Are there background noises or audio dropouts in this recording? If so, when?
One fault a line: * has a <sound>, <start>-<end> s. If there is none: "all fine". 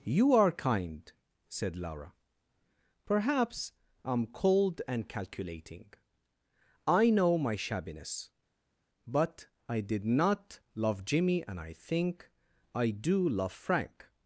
all fine